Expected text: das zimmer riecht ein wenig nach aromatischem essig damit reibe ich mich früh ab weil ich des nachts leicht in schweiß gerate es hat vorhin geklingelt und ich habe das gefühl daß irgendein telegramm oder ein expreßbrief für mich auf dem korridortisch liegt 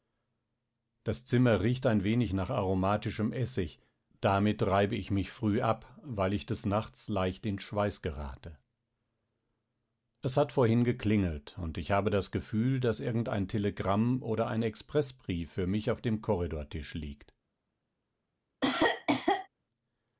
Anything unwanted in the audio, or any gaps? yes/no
yes